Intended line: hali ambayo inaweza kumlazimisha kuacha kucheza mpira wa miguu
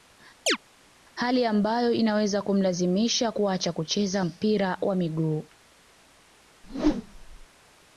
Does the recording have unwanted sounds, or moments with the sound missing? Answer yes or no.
yes